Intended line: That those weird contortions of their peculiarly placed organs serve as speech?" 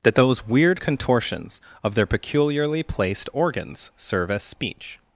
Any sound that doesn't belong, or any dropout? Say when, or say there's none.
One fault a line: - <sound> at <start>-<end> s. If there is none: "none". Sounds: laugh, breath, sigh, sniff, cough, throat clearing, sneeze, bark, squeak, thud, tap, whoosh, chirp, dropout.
none